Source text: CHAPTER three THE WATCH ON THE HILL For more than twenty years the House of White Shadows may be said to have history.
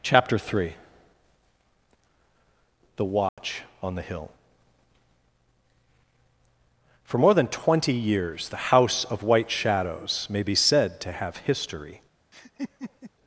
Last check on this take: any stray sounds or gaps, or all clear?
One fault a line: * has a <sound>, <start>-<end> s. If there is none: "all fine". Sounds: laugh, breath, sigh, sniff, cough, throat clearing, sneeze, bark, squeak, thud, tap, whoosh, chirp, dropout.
* has a dropout, 3.3-3.4 s
* has a laugh, 12.3-13.1 s